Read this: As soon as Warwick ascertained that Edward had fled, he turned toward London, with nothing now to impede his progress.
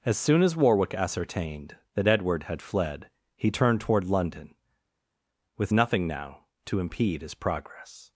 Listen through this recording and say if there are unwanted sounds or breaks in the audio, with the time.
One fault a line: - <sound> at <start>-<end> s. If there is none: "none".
none